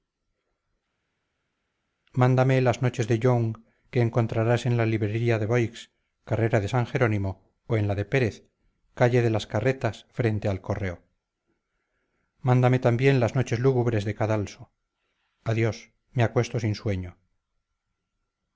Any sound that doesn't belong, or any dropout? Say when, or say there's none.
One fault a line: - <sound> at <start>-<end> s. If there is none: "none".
none